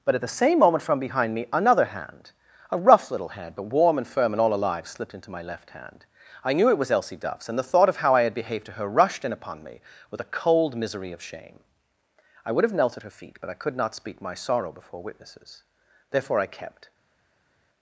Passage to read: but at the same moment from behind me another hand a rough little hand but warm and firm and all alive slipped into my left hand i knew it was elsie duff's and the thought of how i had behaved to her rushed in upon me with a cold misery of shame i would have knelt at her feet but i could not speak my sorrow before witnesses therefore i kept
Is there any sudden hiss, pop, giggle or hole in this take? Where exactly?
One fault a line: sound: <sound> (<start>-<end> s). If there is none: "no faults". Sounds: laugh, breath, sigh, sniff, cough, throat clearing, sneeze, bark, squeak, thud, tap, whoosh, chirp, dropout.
no faults